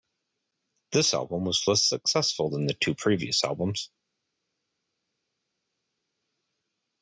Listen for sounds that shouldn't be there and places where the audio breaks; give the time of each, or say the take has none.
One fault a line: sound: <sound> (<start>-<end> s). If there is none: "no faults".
no faults